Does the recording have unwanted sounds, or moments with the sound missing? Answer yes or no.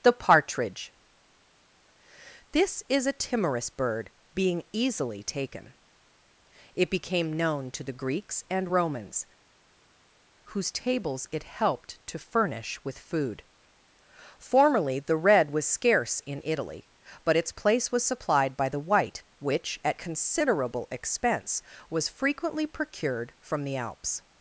no